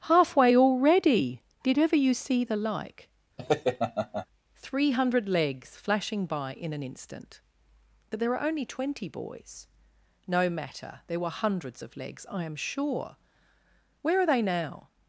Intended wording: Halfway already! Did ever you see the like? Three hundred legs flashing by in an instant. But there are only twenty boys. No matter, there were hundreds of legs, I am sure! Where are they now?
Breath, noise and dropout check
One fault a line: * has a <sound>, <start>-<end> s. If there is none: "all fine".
* has a laugh, 3.4-4.3 s